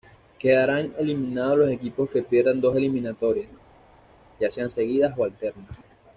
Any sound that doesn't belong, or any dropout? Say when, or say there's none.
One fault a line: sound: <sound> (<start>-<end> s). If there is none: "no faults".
no faults